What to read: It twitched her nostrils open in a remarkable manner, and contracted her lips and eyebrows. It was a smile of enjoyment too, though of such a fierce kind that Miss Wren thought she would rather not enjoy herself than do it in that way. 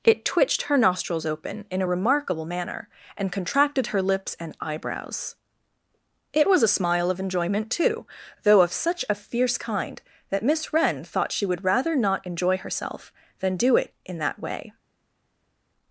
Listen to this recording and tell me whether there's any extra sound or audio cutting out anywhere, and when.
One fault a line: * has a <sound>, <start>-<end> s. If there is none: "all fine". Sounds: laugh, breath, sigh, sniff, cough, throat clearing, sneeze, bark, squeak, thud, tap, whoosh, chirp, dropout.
all fine